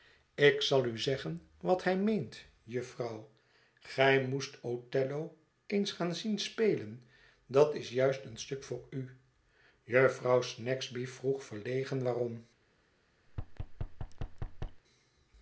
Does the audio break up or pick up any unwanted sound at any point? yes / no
yes